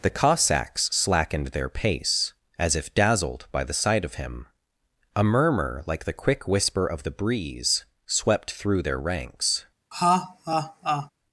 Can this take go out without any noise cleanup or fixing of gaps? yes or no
no